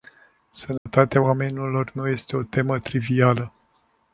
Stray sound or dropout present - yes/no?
yes